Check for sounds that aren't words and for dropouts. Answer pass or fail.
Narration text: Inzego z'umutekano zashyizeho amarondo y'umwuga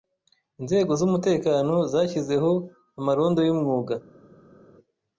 pass